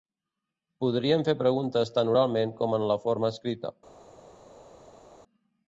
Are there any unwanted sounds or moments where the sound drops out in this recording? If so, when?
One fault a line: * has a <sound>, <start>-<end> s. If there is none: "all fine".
all fine